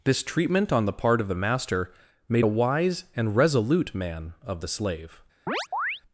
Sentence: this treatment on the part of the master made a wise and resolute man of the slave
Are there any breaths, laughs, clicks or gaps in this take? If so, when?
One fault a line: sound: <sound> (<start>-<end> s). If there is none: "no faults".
sound: chirp (5.5-6.0 s)